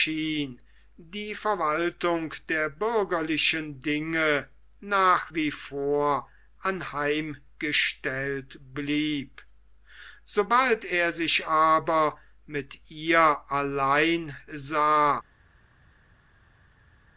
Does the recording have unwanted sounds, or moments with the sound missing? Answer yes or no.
no